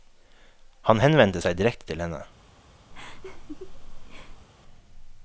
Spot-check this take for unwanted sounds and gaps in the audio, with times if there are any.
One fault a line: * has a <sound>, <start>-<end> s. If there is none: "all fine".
* has a laugh, 2.9-4.5 s